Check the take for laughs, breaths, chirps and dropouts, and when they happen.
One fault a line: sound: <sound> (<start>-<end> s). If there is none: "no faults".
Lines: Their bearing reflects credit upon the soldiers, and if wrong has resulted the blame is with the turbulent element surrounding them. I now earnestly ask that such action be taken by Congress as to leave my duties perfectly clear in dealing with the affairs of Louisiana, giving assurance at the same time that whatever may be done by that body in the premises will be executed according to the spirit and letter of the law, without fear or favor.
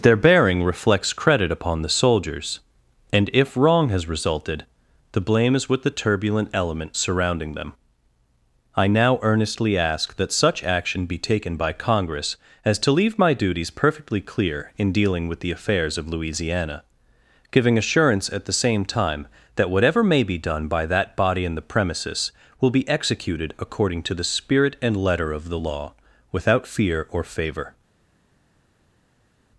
no faults